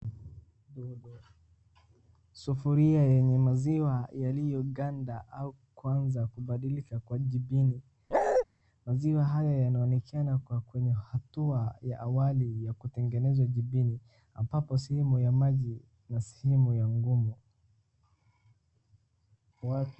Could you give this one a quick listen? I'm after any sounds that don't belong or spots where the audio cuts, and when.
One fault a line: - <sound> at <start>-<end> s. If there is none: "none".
- bark at 8.1-8.5 s